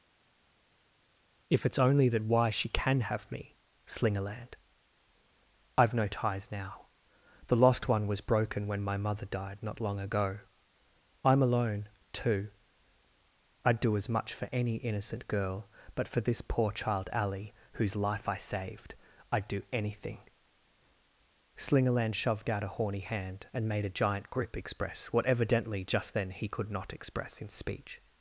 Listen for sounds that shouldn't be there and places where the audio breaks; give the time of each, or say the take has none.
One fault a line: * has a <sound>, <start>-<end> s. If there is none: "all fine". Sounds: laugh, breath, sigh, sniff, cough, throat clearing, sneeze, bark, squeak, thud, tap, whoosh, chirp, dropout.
all fine